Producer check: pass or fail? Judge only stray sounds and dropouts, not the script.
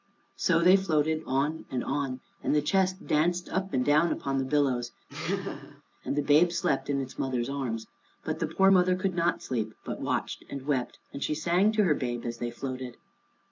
fail